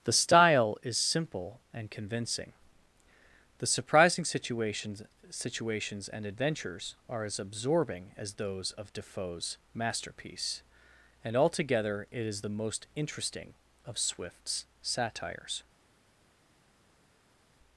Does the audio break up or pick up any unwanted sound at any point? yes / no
no